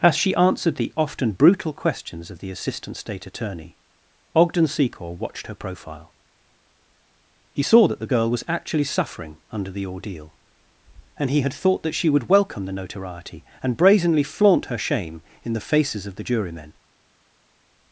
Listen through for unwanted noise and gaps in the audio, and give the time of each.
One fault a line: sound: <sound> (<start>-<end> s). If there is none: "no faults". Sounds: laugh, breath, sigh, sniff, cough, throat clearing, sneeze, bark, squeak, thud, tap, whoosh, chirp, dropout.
no faults